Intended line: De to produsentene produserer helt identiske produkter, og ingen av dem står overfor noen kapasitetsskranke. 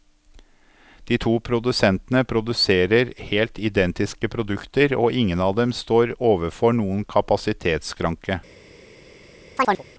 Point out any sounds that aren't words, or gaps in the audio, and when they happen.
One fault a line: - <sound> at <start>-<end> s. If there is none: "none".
- chirp at 9.6-9.8 s